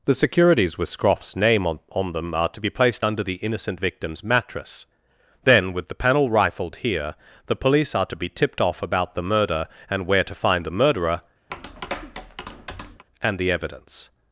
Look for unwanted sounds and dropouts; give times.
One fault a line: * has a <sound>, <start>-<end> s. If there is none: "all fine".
* has a tap, 11.5-13.0 s